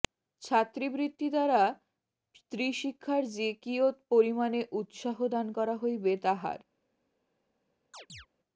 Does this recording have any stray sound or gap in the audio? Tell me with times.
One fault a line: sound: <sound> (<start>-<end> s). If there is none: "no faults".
sound: chirp (7.9-8.3 s)